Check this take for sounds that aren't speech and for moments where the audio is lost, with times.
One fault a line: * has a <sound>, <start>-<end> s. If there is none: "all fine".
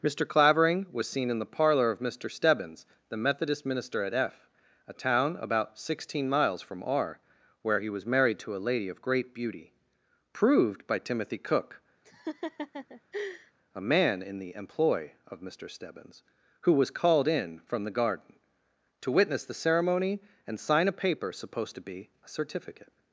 * has a laugh, 12.0-13.5 s